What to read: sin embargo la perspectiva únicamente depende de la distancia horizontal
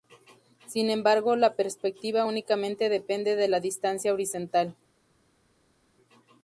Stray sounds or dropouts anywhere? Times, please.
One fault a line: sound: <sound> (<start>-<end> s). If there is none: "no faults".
no faults